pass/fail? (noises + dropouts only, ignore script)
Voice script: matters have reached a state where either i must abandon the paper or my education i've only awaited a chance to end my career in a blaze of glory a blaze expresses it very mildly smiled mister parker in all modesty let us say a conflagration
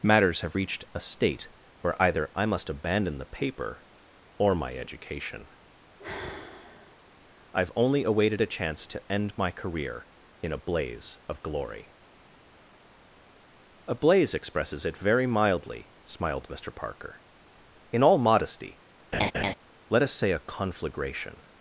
fail